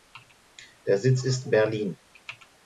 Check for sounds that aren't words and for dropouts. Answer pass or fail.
pass